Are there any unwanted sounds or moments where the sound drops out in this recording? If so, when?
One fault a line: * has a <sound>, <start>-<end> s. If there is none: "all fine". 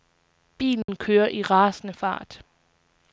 * has a dropout, 0.8-0.9 s